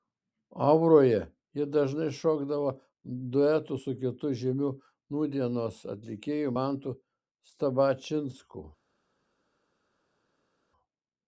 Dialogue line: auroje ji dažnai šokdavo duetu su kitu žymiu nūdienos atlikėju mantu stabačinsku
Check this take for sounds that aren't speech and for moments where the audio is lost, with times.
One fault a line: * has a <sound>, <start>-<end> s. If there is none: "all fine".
all fine